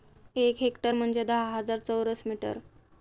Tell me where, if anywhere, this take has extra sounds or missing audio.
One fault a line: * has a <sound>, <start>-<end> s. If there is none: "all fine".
all fine